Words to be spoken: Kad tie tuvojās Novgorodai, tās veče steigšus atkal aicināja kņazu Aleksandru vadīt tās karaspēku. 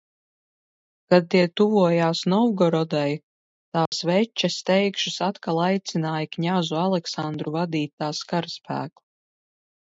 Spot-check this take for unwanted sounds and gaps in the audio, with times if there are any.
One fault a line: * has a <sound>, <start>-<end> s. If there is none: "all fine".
* has a dropout, 3.9-3.9 s